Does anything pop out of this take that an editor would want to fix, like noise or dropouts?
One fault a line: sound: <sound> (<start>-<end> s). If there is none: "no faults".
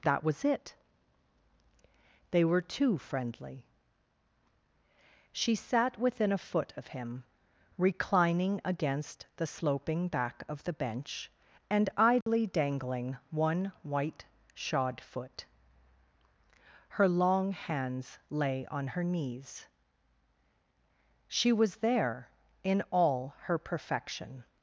sound: dropout (12.2-12.3 s)